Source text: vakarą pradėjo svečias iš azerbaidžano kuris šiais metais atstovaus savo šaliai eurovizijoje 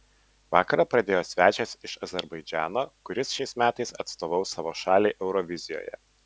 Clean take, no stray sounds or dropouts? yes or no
yes